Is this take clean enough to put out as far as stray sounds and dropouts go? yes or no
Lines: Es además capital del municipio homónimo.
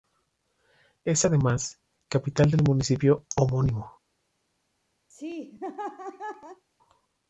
no